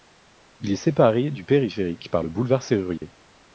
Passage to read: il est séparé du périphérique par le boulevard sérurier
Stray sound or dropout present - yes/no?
yes